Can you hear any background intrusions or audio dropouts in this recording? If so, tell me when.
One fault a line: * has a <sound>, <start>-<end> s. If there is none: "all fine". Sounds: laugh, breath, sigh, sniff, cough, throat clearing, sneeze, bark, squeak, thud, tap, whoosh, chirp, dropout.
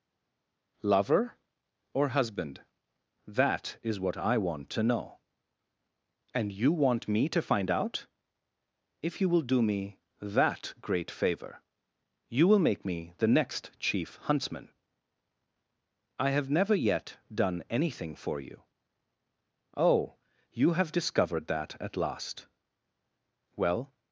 all fine